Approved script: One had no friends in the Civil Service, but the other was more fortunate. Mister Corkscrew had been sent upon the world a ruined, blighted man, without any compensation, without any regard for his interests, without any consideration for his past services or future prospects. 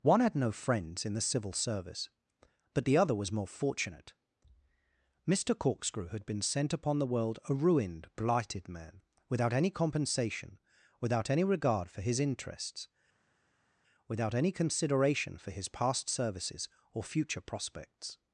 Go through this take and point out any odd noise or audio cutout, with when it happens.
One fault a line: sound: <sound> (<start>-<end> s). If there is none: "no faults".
no faults